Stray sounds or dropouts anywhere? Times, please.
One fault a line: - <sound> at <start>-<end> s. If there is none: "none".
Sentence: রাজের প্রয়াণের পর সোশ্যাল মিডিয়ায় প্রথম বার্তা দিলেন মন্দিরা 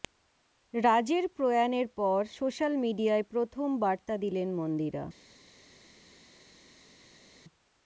none